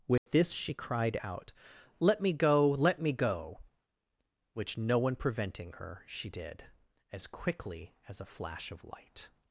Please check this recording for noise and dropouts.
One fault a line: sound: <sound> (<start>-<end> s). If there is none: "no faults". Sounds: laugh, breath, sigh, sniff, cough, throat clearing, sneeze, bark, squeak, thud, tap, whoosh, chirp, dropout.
sound: dropout (0.2-0.3 s)